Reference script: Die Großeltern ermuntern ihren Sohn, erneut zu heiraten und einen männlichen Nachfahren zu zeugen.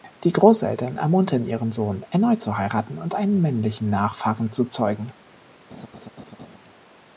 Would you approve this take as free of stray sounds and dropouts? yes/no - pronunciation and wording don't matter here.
no